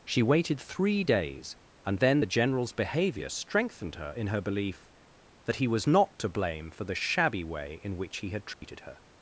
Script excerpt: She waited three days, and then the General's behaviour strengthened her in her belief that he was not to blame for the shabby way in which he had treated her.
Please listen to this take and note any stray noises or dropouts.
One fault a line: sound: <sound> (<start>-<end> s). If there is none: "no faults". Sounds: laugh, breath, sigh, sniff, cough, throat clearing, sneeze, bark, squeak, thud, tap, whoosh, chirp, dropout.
sound: dropout (8.5-8.6 s)